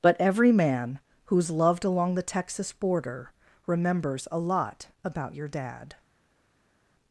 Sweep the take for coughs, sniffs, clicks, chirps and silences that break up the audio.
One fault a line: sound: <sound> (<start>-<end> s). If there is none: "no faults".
no faults